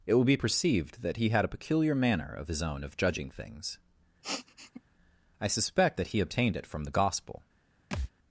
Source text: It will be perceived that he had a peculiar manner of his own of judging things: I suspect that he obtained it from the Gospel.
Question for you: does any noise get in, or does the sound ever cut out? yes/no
yes